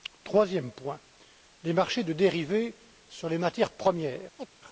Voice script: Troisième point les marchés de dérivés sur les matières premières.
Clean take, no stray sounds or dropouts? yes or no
no